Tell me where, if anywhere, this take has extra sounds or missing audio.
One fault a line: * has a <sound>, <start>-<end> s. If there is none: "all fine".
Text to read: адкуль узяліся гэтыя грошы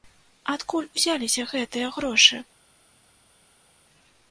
all fine